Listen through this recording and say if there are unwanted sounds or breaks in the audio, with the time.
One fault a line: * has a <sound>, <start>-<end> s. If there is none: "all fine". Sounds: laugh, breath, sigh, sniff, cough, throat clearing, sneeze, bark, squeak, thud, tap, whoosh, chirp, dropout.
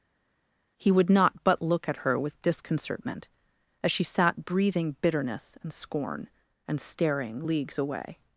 all fine